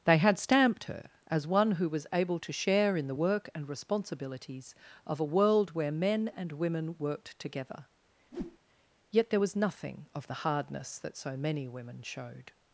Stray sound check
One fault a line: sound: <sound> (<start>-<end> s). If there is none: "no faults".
sound: whoosh (8.3-8.6 s)